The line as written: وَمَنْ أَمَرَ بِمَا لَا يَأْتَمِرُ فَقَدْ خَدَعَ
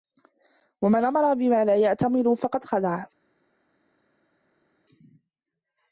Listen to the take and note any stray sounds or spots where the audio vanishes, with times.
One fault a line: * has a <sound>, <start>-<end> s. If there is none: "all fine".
all fine